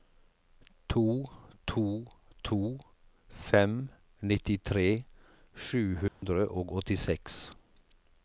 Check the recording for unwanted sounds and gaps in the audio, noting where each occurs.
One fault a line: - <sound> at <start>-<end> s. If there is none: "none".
- dropout at 6.1-6.2 s